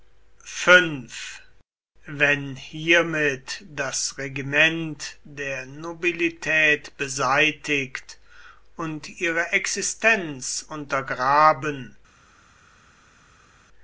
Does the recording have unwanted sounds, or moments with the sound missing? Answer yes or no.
no